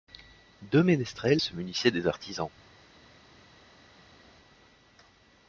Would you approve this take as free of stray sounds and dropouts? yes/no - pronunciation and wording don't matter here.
yes